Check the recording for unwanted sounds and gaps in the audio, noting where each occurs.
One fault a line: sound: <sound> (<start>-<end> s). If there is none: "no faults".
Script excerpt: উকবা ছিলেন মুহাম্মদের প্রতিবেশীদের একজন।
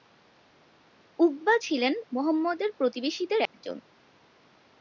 sound: dropout (3.5-3.5 s)